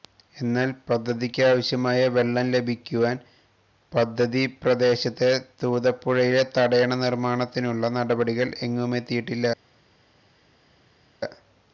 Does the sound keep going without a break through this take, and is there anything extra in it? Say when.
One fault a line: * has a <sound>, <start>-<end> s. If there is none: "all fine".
all fine